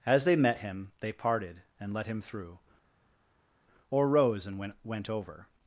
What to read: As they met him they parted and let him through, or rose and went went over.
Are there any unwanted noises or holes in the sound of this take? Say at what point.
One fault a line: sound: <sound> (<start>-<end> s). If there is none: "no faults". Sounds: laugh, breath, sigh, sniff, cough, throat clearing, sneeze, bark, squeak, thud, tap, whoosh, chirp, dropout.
no faults